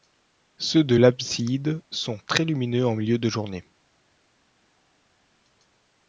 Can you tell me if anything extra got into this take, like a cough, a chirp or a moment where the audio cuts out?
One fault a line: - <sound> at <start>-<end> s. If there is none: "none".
none